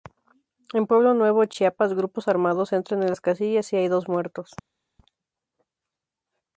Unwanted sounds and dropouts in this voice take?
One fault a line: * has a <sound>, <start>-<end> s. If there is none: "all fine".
all fine